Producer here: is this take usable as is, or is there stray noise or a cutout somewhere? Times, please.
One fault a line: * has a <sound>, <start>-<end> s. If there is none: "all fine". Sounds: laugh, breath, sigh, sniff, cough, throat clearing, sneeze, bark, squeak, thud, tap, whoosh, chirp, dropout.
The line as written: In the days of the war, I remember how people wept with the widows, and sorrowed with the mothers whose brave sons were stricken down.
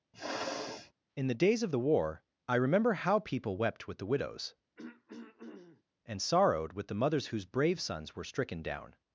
* has a sniff, 0.1-0.9 s
* has a throat clearing, 4.8-5.8 s